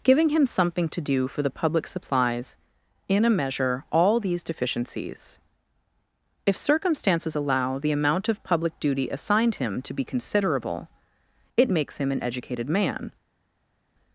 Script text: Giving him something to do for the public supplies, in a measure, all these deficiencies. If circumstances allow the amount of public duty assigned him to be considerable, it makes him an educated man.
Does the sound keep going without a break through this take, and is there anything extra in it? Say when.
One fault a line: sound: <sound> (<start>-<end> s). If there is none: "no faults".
no faults